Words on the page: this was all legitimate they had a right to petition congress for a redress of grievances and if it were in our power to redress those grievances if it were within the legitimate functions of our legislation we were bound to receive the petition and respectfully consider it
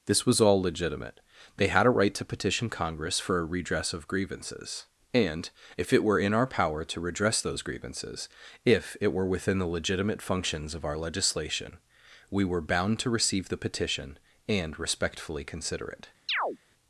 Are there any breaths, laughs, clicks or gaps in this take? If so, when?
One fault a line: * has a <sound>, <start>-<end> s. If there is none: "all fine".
* has a chirp, 16.3-16.6 s